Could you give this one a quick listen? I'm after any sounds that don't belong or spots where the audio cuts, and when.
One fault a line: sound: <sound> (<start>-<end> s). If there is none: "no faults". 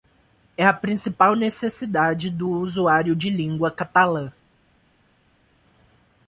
no faults